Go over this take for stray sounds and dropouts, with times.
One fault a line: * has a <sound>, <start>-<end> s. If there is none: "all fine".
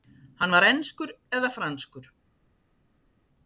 all fine